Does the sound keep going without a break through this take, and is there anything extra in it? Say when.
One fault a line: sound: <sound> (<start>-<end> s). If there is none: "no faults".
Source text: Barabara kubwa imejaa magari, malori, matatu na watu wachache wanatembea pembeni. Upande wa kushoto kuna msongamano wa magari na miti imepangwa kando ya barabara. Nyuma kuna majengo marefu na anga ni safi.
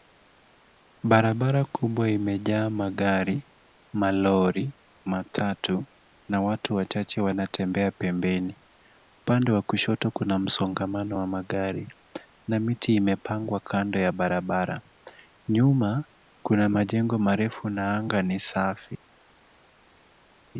no faults